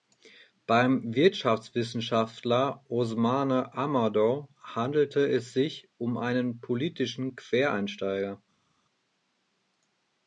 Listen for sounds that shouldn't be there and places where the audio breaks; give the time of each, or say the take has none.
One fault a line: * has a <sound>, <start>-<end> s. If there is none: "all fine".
all fine